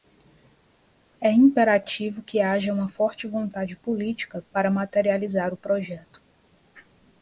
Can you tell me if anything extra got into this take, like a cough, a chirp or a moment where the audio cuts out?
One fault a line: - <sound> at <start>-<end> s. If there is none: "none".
none